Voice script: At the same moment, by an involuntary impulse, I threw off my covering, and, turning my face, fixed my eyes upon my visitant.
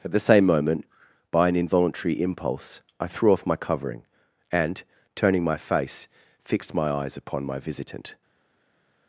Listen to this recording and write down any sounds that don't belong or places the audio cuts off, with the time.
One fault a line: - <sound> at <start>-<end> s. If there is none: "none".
none